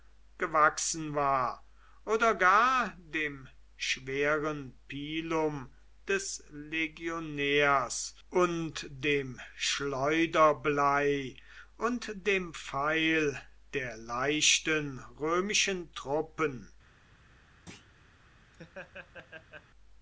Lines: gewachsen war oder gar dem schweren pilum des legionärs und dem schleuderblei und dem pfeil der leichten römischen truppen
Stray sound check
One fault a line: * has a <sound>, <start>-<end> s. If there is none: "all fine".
* has a thud, 17.7-17.9 s
* has a laugh, 18.5-19.7 s